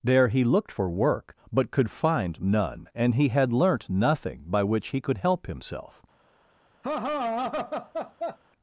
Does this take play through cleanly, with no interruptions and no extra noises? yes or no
no